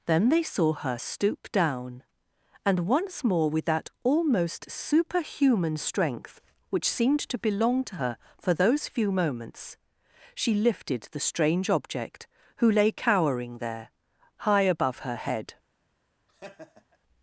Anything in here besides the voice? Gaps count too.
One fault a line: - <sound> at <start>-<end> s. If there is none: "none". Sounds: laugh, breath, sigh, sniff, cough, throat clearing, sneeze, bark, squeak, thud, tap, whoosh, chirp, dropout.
- laugh at 16.3-17.0 s